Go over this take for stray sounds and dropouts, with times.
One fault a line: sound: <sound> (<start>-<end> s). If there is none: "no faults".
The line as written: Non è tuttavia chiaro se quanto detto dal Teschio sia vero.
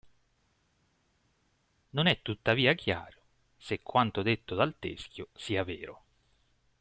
no faults